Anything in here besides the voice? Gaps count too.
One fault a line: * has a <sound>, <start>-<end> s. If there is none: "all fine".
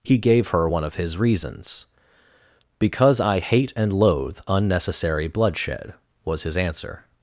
all fine